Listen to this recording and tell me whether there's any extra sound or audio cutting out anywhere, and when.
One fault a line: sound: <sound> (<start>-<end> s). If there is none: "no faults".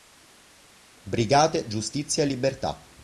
no faults